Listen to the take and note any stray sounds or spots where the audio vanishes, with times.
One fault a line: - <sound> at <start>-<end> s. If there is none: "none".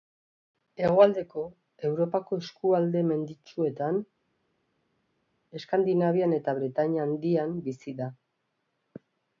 none